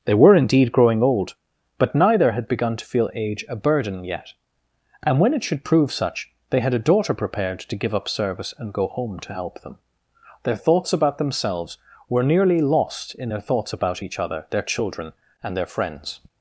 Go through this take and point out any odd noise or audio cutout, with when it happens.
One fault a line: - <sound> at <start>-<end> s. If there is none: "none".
none